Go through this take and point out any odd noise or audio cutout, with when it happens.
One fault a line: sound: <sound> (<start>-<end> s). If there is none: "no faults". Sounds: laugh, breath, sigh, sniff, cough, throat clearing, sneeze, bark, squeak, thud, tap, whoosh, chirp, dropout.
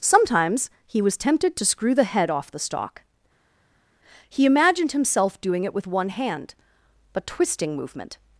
no faults